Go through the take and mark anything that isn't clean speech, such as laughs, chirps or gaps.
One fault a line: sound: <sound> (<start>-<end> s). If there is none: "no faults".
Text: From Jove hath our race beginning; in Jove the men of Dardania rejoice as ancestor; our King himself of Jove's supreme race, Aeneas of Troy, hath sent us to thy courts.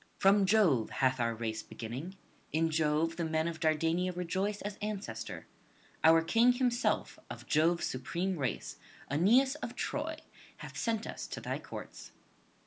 no faults